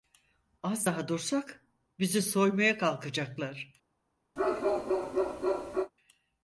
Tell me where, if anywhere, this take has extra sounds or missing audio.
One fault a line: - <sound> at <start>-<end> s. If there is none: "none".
- bark at 4.4-5.9 s